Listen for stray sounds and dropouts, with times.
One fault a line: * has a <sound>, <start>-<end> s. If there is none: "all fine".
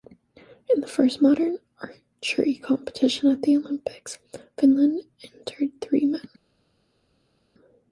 all fine